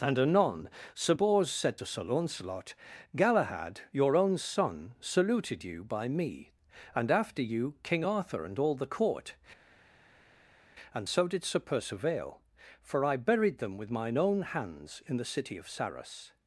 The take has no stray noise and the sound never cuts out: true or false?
true